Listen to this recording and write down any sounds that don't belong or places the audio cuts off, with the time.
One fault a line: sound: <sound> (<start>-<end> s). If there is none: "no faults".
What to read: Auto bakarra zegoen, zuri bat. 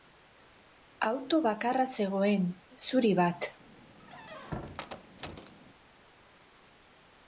sound: squeak (4.0-5.5 s)